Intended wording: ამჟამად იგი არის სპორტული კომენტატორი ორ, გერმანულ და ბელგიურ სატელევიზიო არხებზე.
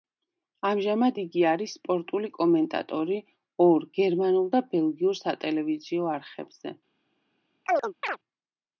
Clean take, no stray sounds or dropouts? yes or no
no